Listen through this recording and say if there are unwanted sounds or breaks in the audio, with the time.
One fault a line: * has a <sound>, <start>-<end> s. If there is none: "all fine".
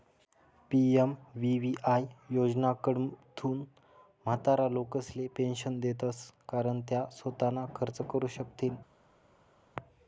all fine